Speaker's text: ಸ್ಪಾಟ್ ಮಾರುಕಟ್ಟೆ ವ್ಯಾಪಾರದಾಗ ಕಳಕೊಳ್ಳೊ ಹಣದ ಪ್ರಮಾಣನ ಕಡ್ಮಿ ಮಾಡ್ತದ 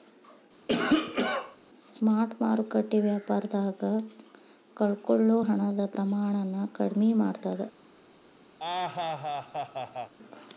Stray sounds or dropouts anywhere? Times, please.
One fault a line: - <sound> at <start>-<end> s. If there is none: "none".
- cough at 0.7-1.6 s
- laugh at 8.6-10.1 s